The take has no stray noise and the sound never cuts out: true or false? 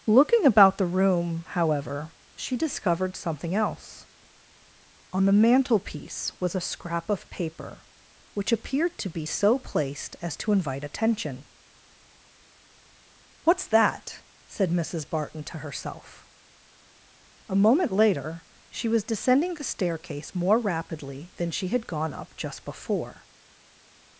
true